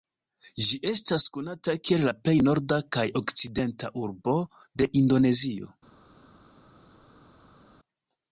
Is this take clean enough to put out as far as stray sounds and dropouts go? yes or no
yes